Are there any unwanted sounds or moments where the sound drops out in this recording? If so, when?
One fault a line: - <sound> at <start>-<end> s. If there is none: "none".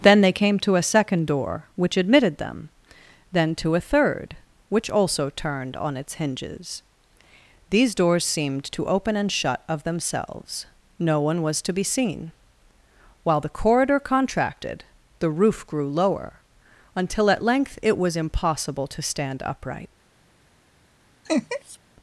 - laugh at 21.2-21.8 s